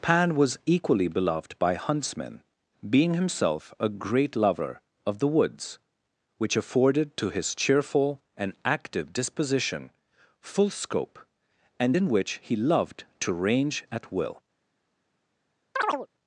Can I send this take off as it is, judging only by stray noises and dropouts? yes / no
no